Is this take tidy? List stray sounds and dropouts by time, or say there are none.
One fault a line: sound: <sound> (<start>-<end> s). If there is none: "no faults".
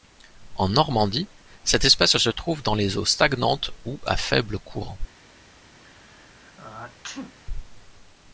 sound: sneeze (5.8-7.3 s)